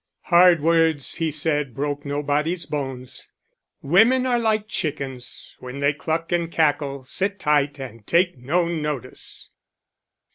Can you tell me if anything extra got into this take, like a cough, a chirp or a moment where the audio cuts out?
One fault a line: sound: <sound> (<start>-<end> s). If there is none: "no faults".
no faults